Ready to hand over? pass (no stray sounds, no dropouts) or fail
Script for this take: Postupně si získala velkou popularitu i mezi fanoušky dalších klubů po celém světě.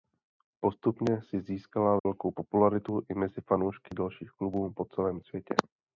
fail